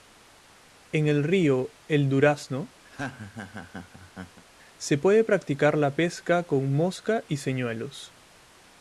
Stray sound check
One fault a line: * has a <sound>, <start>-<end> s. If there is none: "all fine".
* has a laugh, 2.9-4.5 s